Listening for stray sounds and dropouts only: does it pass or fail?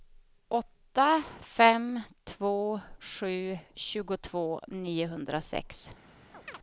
fail